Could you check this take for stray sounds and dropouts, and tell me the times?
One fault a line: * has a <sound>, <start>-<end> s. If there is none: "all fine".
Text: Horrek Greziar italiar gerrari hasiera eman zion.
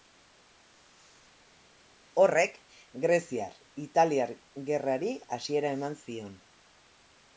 all fine